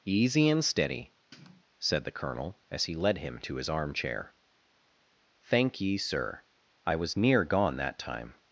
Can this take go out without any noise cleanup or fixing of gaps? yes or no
no